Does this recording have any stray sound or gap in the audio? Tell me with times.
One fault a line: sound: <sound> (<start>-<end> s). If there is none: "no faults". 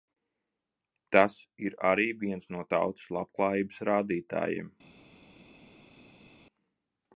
no faults